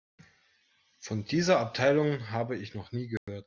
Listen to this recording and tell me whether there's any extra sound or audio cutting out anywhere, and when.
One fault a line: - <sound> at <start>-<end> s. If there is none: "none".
- dropout at 3.2-3.3 s